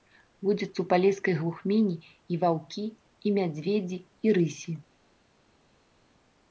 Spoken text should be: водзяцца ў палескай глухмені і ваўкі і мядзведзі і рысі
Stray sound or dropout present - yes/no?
no